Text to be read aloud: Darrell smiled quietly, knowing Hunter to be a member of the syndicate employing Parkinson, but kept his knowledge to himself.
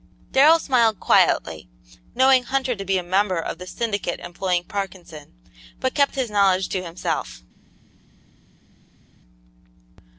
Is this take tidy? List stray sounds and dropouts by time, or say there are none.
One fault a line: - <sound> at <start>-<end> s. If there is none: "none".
none